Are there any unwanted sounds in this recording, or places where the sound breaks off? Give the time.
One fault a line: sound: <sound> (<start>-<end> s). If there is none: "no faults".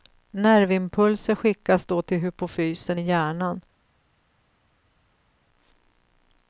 no faults